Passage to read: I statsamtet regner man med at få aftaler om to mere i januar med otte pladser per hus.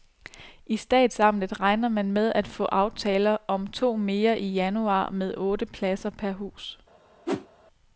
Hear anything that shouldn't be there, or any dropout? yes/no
yes